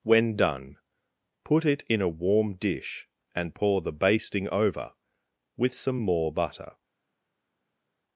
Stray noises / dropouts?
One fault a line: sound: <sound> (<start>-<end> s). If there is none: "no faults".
no faults